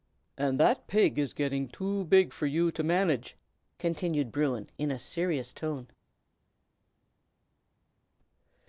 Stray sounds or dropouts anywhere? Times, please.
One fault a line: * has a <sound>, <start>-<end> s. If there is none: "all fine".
all fine